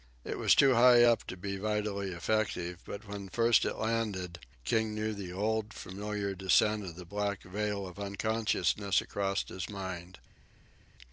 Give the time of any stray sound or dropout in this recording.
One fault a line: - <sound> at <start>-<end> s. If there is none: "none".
none